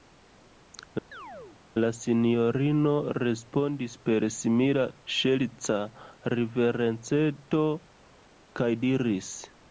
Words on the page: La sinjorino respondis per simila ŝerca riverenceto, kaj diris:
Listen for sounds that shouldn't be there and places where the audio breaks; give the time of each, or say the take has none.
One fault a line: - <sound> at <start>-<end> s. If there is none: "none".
- chirp at 1.1-1.6 s